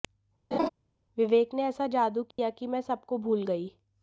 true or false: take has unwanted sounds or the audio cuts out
true